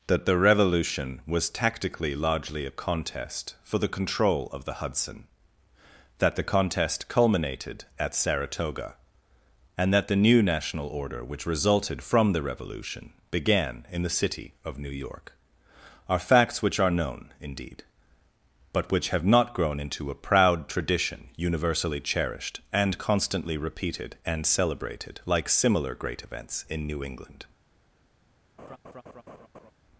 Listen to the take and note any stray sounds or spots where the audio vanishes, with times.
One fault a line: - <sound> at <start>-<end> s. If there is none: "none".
- laugh at 28.6-29.7 s